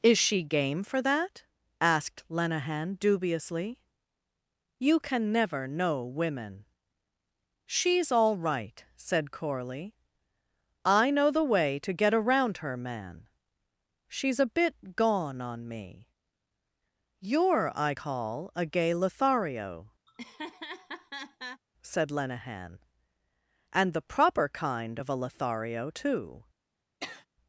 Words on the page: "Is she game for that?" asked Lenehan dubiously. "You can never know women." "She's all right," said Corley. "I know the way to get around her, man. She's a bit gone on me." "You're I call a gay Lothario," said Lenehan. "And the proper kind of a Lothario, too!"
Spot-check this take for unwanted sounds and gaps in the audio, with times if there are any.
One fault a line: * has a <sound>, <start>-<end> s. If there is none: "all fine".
* has a laugh, 20.1-21.6 s
* has a sniff, 27.0-27.3 s